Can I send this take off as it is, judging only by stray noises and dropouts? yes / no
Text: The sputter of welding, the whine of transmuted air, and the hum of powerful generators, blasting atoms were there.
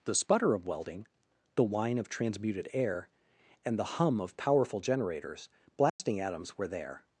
no